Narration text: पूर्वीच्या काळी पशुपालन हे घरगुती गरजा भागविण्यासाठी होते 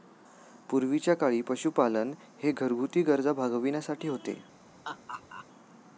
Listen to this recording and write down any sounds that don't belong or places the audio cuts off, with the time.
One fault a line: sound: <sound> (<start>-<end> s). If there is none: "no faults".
sound: laugh (4.8-5.5 s)